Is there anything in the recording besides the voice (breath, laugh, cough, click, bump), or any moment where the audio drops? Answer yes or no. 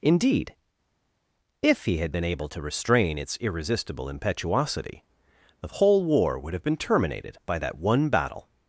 no